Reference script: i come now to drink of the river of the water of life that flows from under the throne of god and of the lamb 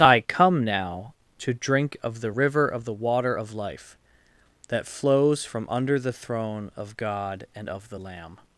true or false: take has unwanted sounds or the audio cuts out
false